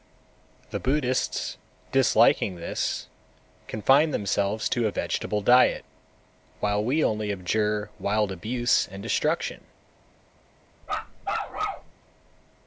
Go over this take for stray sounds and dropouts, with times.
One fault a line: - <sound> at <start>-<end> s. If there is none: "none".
- bark at 10.8-11.9 s